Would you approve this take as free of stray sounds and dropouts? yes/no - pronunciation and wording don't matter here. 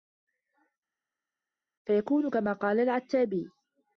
yes